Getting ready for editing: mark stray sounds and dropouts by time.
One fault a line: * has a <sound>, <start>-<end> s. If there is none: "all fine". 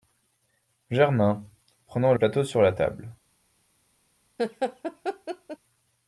* has a laugh, 4.4-5.6 s